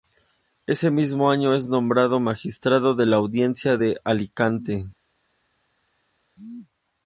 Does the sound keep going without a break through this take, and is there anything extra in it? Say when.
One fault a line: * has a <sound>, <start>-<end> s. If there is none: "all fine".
all fine